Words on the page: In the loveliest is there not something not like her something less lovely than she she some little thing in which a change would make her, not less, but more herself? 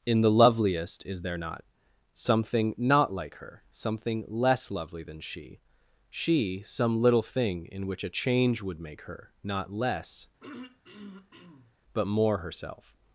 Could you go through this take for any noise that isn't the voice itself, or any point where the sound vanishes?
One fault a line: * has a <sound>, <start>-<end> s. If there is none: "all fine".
* has a throat clearing, 10.4-11.7 s